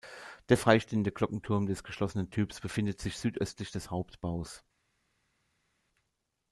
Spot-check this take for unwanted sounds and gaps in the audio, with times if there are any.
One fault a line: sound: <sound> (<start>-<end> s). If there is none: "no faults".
no faults